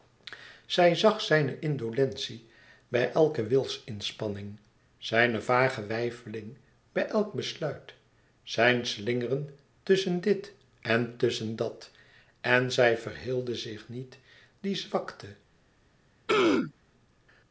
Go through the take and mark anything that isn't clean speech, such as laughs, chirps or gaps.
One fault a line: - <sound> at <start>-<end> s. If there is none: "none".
- throat clearing at 16.3-16.7 s